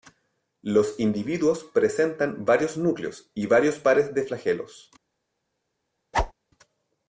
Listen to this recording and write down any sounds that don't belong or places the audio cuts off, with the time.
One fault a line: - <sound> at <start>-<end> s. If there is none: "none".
- whoosh at 6.1-6.3 s